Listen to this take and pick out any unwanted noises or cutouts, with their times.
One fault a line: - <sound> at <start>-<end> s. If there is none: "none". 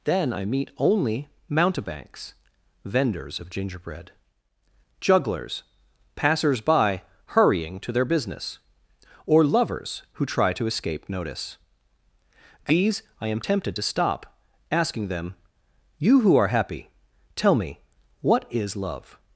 none